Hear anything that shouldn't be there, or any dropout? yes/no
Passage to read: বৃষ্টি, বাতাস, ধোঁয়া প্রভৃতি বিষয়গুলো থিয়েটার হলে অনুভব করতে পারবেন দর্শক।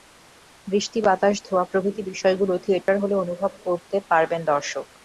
yes